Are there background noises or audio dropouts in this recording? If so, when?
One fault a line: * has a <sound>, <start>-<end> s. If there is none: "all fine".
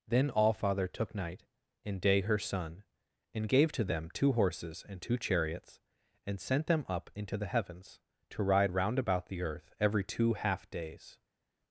all fine